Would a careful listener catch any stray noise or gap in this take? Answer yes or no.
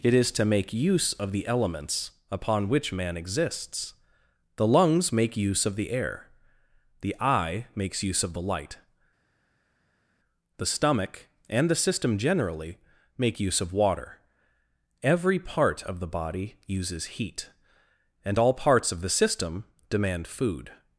no